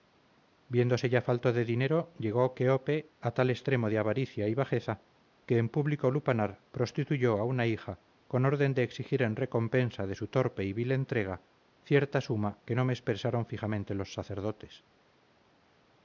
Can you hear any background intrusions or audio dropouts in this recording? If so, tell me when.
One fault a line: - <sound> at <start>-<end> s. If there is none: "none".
none